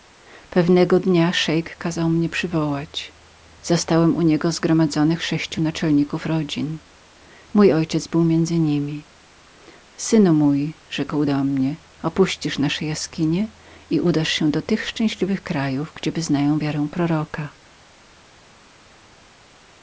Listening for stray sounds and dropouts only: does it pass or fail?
pass